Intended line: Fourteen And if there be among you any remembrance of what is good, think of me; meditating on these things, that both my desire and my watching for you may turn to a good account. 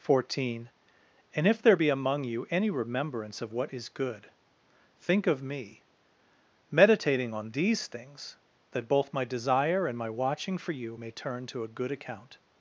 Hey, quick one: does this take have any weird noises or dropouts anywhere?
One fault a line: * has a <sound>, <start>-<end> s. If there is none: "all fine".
all fine